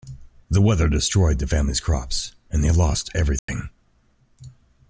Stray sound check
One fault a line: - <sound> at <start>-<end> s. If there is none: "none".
- dropout at 3.4-3.5 s